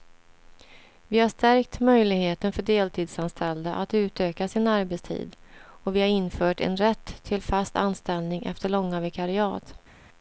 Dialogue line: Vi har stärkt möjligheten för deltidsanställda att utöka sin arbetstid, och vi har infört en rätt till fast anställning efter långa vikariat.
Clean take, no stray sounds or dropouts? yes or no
yes